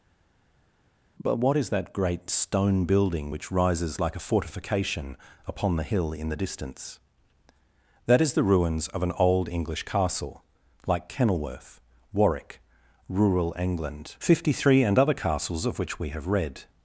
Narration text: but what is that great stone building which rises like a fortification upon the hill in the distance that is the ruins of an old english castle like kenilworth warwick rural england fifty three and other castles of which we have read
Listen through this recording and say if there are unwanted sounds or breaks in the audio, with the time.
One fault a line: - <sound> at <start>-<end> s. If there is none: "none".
none